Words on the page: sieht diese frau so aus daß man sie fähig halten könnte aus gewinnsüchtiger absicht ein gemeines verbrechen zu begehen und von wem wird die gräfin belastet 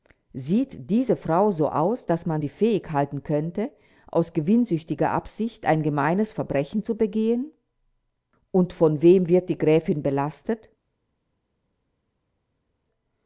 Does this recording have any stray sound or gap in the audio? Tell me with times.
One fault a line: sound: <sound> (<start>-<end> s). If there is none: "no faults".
no faults